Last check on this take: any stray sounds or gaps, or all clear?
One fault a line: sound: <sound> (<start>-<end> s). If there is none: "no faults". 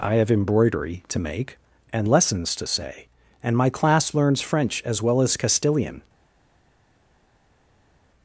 no faults